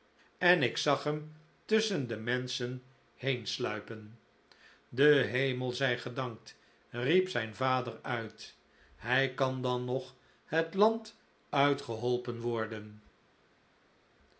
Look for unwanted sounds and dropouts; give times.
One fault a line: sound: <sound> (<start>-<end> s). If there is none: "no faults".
no faults